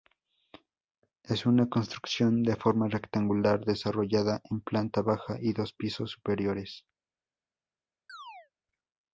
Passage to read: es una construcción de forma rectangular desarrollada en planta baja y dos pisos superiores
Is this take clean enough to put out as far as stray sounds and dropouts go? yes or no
no